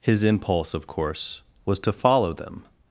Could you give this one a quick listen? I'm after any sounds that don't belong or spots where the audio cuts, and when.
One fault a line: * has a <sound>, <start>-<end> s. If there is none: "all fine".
all fine